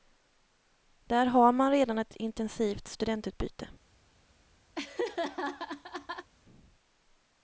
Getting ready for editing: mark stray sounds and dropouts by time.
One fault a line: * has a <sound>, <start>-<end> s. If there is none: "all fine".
* has a laugh, 4.7-6.3 s